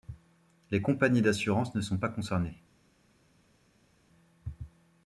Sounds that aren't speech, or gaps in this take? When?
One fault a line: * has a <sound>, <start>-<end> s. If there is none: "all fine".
all fine